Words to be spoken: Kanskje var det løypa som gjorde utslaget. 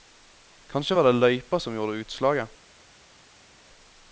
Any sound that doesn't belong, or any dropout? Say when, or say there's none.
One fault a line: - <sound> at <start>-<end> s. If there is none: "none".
none